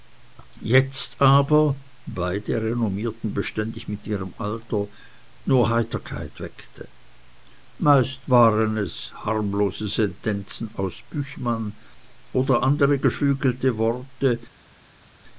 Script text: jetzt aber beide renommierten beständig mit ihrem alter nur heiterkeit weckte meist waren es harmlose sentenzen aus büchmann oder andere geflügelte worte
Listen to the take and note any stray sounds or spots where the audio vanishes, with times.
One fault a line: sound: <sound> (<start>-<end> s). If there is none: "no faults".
no faults